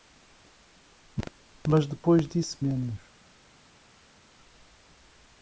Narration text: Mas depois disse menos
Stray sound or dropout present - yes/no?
no